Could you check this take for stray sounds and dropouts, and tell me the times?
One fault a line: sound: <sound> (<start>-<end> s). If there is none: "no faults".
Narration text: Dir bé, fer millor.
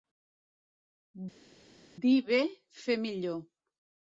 no faults